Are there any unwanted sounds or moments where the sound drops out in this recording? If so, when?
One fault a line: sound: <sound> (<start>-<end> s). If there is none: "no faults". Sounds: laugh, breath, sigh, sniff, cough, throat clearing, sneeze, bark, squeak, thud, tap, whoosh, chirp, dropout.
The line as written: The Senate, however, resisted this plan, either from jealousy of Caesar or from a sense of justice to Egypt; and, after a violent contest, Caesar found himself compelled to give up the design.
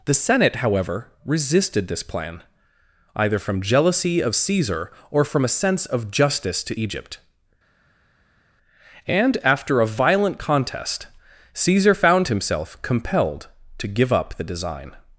no faults